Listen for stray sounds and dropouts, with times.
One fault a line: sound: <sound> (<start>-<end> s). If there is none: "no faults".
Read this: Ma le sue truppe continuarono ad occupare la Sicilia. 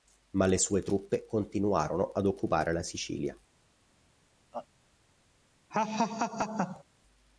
sound: laugh (4.5-4.7 s)
sound: laugh (5.7-6.8 s)